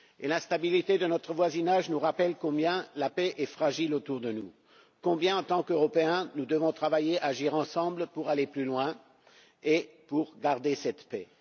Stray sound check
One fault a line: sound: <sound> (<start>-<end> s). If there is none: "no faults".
no faults